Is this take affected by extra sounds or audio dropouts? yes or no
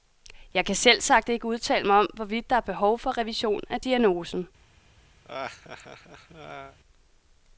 yes